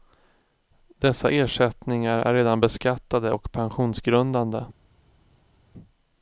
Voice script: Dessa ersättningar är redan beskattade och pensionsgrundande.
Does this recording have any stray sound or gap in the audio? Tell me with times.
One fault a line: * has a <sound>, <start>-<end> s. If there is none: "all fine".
all fine